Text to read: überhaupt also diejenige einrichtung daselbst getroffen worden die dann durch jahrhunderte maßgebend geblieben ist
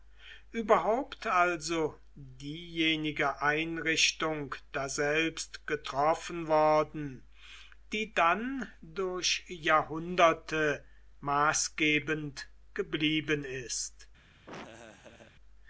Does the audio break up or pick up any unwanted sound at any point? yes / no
yes